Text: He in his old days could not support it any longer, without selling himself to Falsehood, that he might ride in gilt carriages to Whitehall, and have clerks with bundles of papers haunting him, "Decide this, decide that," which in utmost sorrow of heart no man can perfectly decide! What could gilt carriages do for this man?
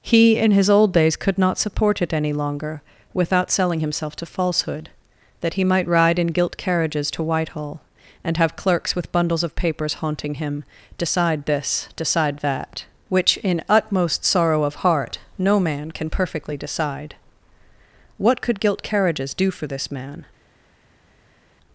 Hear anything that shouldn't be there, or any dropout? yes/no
no